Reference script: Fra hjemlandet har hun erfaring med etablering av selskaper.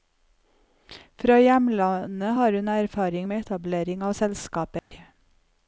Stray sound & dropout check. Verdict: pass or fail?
fail